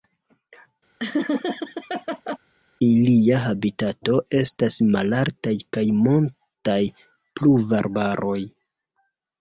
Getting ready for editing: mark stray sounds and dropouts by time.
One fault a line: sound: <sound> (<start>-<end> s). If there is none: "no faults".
sound: laugh (1.0-2.4 s)